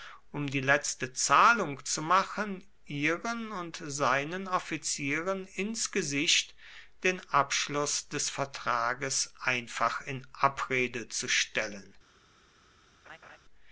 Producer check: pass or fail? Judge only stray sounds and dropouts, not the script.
fail